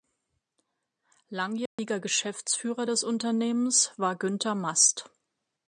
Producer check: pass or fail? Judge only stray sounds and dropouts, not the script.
fail